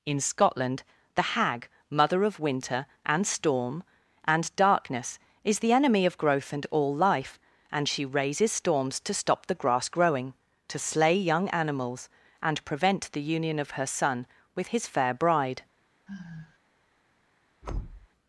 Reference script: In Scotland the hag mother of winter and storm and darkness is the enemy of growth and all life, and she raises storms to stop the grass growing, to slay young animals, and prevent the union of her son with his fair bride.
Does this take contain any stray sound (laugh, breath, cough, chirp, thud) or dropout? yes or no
yes